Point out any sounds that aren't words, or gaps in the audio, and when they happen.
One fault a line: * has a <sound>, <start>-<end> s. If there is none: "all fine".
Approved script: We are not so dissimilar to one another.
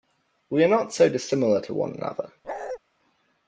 * has a bark, 2.4-2.8 s